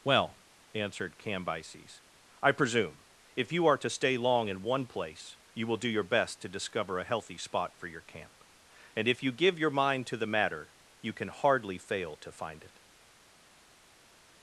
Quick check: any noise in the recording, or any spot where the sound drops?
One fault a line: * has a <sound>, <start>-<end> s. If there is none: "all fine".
all fine